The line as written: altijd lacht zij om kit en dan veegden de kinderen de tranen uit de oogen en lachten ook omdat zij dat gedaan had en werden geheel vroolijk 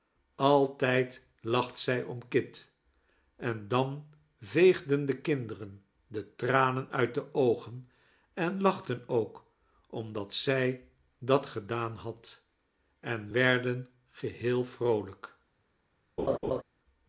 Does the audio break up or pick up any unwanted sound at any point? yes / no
yes